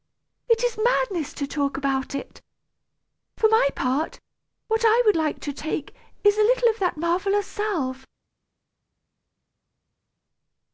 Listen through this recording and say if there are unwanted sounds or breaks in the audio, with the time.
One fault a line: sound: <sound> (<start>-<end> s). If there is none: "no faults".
no faults